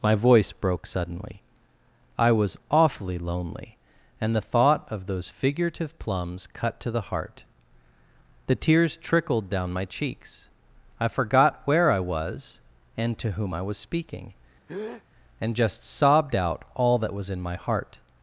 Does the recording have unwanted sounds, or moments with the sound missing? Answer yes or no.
yes